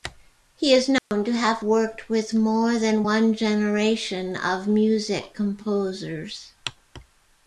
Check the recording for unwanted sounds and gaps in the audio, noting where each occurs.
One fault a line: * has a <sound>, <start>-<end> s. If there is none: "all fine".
* has a dropout, 1.0-1.1 s